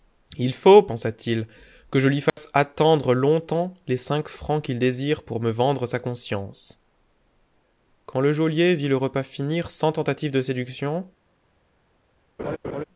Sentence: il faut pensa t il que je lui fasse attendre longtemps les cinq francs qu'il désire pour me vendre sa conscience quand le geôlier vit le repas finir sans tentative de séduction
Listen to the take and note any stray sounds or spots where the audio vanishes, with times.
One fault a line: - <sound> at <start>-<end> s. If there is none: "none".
- dropout at 2.3-2.4 s
- laugh at 12.4-12.8 s